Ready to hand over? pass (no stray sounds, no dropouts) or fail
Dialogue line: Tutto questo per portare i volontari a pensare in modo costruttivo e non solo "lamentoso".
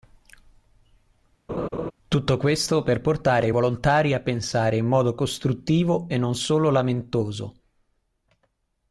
fail